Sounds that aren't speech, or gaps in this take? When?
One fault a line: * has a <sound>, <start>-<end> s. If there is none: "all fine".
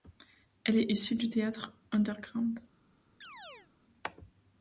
* has a chirp, 3.2-3.7 s